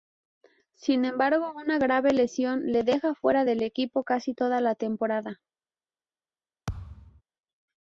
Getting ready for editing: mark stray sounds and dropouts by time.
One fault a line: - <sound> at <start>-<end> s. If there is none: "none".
- thud at 6.7-7.2 s